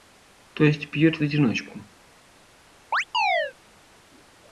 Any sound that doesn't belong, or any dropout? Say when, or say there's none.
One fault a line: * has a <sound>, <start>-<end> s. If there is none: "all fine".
* has a chirp, 2.9-3.5 s